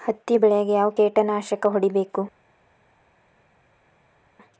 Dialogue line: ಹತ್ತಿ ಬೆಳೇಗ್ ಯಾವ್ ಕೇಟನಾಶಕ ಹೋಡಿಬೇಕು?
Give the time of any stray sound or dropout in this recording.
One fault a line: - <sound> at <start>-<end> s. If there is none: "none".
none